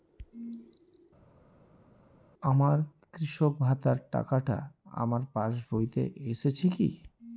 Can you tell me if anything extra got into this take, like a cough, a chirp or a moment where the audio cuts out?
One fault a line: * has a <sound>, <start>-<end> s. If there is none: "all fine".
all fine